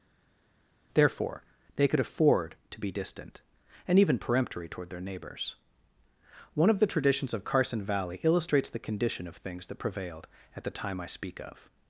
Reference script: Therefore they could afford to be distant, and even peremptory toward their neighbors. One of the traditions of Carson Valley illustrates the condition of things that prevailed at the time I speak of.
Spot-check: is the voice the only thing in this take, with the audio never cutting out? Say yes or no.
yes